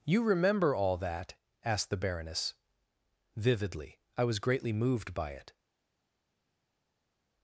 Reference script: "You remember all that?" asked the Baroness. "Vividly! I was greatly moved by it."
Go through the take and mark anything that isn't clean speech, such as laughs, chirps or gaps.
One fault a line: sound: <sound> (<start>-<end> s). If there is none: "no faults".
no faults